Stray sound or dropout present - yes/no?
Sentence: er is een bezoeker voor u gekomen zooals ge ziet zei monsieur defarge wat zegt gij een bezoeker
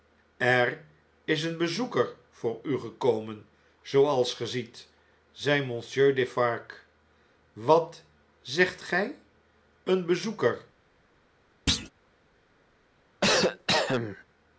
yes